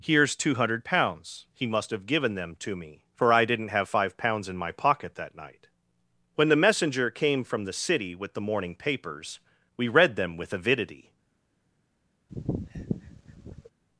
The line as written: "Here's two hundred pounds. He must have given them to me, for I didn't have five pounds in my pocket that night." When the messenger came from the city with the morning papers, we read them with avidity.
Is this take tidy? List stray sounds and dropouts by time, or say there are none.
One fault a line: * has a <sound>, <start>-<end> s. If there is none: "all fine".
* has a sniff, 12.3-13.7 s